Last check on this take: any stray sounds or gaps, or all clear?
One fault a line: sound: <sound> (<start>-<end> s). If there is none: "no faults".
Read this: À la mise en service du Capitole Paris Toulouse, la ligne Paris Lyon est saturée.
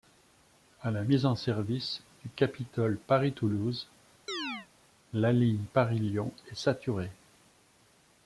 sound: chirp (4.3-4.7 s)